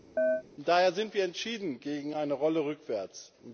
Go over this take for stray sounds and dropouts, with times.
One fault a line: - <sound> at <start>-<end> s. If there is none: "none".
- chirp at 0.2-0.4 s